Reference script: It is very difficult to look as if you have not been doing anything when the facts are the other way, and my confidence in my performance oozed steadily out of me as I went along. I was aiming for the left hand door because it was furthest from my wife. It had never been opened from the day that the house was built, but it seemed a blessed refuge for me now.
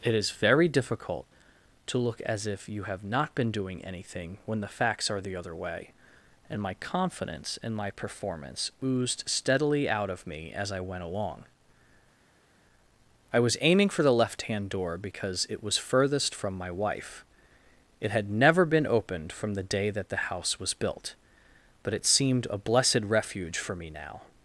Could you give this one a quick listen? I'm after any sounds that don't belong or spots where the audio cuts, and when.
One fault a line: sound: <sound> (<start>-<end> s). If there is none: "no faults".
no faults